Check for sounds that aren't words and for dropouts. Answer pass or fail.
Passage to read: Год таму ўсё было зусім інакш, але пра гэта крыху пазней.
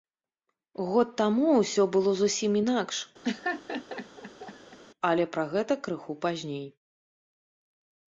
fail